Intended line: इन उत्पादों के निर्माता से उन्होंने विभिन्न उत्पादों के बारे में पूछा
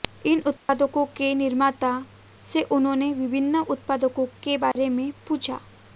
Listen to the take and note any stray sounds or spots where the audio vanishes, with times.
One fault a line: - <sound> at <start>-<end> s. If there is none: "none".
- dropout at 0.6-0.7 s
- dropout at 4.7-4.8 s